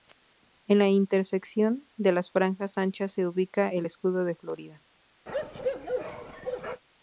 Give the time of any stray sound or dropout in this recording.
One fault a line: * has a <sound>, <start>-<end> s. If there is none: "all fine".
* has a bark, 5.3-6.8 s